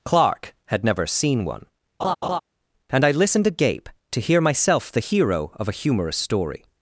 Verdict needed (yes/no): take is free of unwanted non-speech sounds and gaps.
no